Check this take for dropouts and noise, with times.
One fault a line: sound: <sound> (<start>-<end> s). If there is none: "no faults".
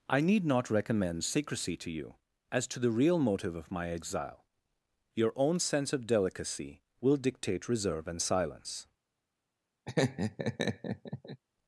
sound: laugh (9.9-11.4 s)